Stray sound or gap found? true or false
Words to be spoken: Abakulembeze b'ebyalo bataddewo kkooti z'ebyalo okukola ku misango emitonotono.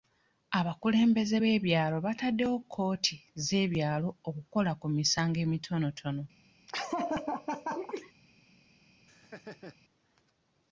true